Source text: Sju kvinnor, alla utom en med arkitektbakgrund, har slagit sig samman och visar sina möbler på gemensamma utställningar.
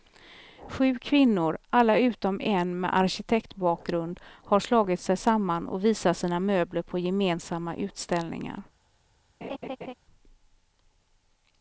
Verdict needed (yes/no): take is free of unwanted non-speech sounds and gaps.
no